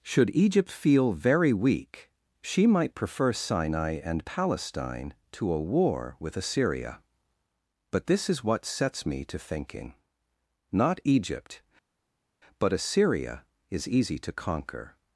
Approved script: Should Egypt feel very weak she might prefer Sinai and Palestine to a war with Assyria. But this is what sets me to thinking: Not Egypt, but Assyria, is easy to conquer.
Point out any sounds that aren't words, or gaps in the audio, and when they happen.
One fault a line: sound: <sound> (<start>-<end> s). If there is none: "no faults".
no faults